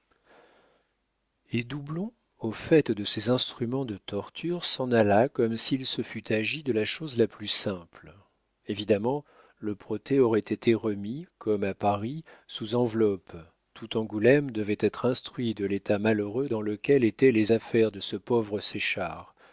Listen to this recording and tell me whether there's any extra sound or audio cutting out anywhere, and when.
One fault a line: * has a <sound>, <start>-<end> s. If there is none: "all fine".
all fine